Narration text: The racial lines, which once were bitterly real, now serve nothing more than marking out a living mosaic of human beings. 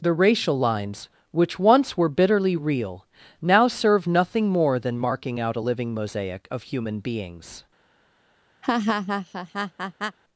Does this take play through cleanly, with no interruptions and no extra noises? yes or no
no